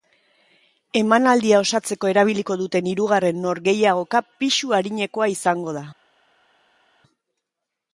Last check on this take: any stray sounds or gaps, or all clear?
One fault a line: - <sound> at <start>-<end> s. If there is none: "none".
none